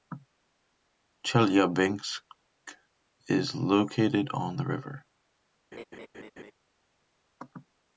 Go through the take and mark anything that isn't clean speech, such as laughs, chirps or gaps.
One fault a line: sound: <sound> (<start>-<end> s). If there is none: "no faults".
sound: laugh (5.7-6.5 s)